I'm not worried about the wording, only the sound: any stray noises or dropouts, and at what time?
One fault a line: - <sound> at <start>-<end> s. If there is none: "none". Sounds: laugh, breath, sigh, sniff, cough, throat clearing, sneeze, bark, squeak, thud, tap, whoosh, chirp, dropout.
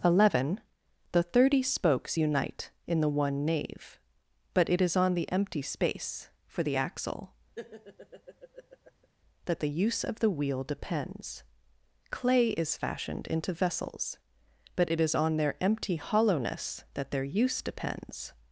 - laugh at 7.6-9.1 s